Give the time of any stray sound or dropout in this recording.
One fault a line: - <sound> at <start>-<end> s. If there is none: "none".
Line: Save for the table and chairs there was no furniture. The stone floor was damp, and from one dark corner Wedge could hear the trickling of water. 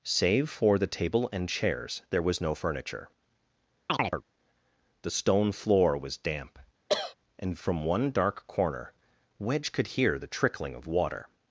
- chirp at 3.9-4.2 s
- cough at 6.9-7.1 s